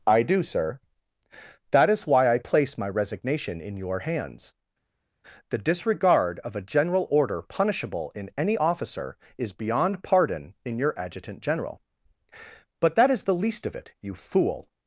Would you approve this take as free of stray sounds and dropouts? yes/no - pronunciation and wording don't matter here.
yes